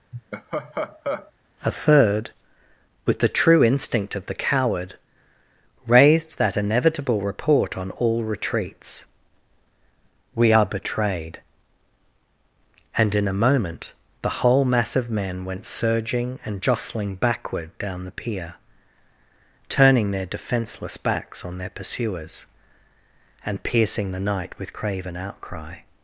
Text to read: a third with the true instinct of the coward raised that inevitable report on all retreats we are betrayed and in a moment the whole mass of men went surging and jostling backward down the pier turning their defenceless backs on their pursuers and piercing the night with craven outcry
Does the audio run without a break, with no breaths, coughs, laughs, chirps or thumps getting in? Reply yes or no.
no